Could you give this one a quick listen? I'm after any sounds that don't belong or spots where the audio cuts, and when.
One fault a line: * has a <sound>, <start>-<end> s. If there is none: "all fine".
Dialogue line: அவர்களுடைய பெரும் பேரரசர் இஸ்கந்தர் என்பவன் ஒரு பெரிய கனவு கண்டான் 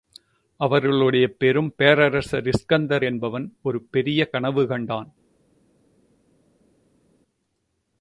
all fine